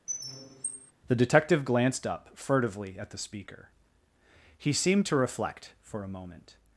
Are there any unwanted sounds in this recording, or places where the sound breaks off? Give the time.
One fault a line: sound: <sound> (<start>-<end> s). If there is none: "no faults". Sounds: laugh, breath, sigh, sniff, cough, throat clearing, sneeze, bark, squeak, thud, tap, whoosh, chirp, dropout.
sound: squeak (0.1-0.9 s)